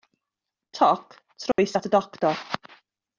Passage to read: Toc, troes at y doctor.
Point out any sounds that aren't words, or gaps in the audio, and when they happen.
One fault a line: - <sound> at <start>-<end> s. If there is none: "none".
- dropout at 1.5-1.6 s